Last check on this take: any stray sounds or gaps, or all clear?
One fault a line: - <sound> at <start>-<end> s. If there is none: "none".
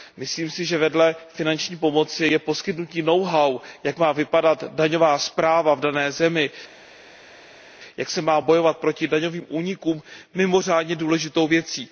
none